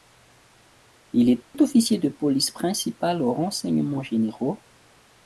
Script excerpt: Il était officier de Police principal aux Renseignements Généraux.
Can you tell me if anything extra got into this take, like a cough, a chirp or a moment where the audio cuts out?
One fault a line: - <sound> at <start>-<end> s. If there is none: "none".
- dropout at 1.4-1.5 s